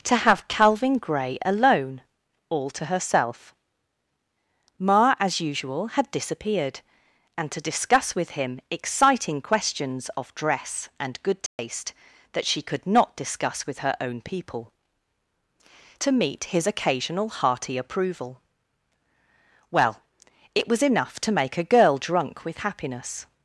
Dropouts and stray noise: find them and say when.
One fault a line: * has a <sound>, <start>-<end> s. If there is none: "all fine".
* has a dropout, 11.5-11.6 s